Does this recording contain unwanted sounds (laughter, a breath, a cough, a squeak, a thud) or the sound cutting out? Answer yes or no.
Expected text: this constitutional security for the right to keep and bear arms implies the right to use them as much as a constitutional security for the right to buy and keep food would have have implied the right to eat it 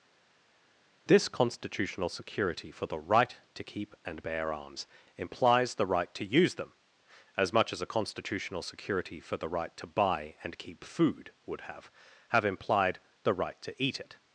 no